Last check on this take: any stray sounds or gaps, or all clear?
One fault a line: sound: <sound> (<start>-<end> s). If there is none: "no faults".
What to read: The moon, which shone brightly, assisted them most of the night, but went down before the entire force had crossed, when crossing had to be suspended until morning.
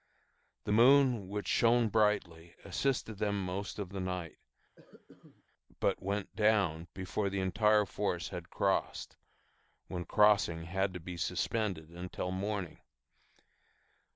sound: cough (4.8-5.4 s)